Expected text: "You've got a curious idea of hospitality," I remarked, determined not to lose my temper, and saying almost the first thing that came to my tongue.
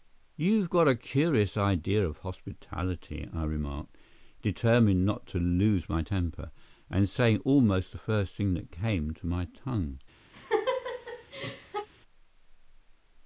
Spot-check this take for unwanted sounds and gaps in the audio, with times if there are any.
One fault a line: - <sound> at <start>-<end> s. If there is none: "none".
- laugh at 10.3-11.9 s